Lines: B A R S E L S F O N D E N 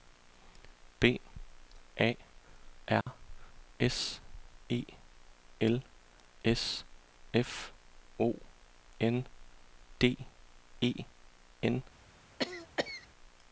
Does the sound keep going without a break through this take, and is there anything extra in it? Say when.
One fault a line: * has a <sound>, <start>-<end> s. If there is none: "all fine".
* has a dropout, 3.0-3.1 s
* has a cough, 12.4-13.1 s